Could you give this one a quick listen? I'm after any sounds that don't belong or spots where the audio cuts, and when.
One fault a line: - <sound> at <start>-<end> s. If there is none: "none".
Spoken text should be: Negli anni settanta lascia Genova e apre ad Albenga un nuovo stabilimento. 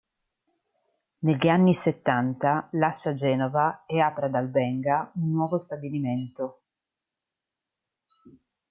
none